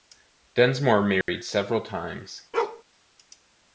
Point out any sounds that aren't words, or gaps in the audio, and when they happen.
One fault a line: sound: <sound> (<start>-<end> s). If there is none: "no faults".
sound: dropout (1.2-1.3 s)
sound: bark (2.5-2.8 s)